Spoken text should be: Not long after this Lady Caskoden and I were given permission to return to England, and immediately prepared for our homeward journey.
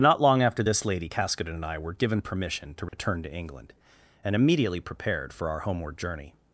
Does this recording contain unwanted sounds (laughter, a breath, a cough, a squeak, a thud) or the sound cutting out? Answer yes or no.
yes